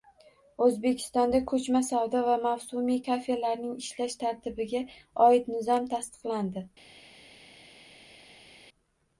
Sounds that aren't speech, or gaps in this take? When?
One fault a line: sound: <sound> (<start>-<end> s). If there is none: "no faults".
no faults